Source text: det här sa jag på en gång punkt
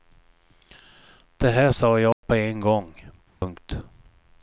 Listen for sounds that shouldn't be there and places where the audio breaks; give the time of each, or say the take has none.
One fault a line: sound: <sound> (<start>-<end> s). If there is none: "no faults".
sound: dropout (2.1-2.2 s)
sound: dropout (3.3-3.4 s)